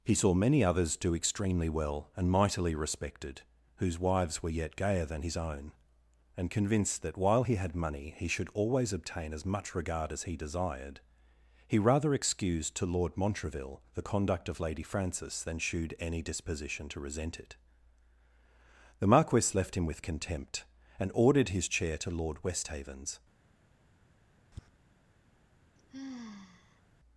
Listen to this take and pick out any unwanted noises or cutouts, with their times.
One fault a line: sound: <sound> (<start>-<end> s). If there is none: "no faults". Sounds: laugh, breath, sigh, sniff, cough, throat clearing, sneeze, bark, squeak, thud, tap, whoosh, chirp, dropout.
sound: tap (24.5-24.7 s)
sound: sigh (25.8-26.8 s)